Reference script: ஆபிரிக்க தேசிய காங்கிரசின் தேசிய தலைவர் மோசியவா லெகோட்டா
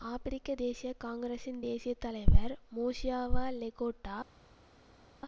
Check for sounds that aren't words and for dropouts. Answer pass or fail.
pass